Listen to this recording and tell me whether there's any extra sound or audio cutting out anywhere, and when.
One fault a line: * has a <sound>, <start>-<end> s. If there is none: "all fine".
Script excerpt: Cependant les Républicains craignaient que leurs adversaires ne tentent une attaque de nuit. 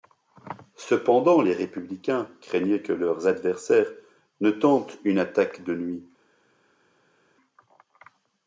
all fine